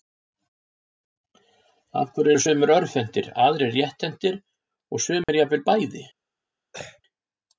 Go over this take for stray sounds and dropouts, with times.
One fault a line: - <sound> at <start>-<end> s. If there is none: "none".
- dropout at 5.2-5.3 s
- throat clearing at 6.7-7.0 s